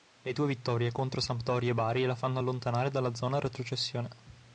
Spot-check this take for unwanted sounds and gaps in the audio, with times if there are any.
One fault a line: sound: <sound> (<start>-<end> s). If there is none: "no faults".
no faults